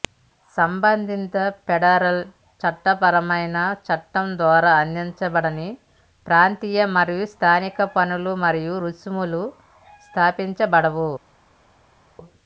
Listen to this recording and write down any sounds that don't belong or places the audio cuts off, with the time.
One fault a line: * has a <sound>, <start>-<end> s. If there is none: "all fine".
all fine